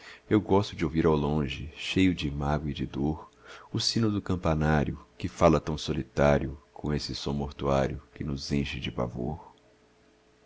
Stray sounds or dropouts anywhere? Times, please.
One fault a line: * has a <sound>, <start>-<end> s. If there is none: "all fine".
all fine